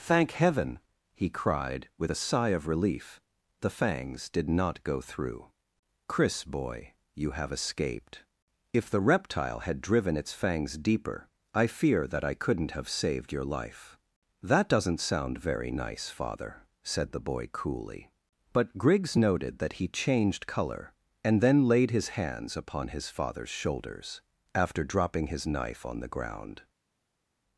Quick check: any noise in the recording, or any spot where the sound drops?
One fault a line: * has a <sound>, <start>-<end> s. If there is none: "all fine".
all fine